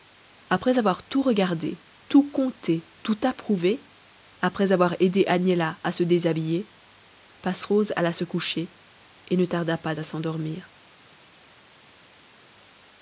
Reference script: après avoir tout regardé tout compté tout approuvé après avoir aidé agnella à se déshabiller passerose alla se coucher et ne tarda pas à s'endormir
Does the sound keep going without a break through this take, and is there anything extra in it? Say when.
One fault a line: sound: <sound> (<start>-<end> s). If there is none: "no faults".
no faults